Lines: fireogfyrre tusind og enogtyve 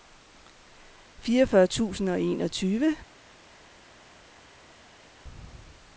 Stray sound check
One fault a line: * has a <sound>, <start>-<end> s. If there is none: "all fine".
all fine